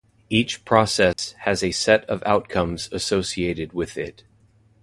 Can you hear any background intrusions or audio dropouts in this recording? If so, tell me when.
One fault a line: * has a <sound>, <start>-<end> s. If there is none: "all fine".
* has a dropout, 1.1-1.2 s